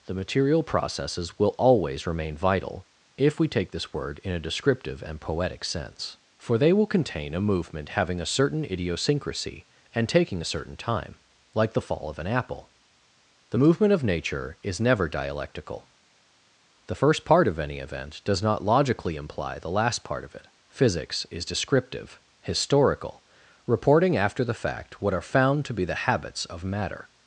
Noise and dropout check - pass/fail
pass